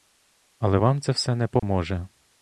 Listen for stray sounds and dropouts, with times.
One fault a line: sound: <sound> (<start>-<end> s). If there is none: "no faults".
sound: dropout (1.6-1.6 s)